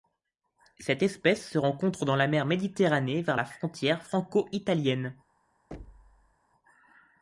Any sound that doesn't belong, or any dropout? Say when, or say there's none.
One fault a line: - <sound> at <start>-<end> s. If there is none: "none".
- thud at 5.7-6.4 s